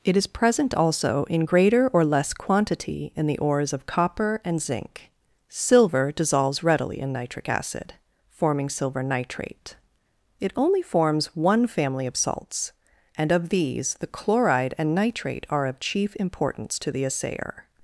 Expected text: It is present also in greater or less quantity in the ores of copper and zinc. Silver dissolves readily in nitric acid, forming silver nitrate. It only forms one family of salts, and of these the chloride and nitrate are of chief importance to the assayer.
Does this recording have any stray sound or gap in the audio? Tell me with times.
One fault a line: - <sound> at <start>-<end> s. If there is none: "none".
none